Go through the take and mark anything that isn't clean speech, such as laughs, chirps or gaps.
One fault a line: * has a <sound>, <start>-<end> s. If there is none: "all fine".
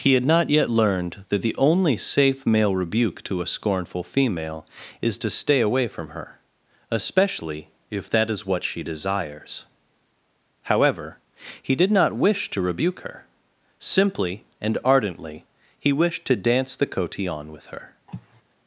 * has a cough, 18.1-18.4 s